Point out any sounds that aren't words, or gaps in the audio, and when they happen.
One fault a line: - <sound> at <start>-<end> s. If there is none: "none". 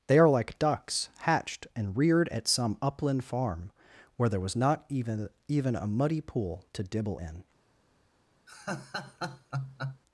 - laugh at 8.5-10.0 s